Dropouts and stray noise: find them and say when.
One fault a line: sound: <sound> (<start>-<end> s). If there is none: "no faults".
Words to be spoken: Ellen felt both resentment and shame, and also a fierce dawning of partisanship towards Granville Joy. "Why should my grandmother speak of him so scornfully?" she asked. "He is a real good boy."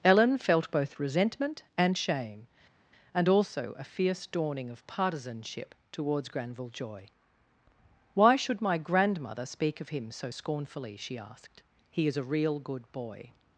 no faults